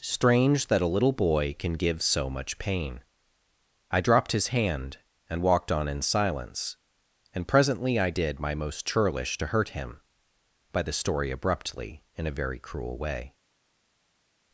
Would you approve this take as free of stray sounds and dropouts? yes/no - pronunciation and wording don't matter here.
yes